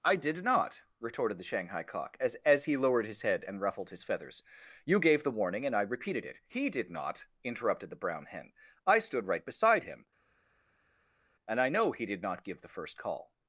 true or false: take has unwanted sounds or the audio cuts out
false